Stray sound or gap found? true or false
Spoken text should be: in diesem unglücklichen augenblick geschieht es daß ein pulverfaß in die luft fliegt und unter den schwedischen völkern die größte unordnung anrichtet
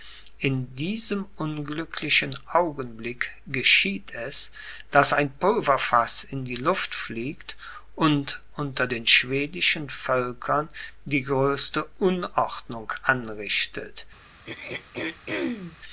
true